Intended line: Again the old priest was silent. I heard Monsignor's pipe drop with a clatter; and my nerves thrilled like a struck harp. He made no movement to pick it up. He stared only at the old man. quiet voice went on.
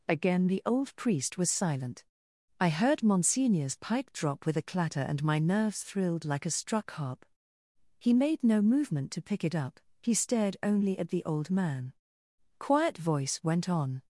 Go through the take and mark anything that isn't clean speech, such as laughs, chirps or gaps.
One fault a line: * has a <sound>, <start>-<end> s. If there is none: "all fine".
all fine